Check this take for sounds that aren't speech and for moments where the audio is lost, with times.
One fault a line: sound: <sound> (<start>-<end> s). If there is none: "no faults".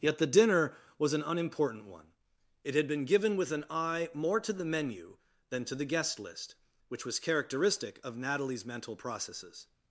no faults